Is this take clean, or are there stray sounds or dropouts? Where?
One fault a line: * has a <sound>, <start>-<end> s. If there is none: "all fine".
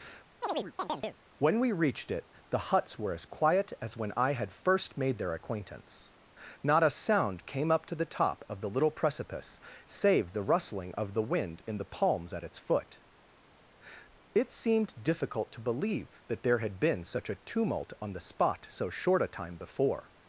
* has a chirp, 0.4-1.2 s